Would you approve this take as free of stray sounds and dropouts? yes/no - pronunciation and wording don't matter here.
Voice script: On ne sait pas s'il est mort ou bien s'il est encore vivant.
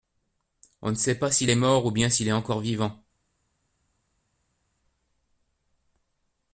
yes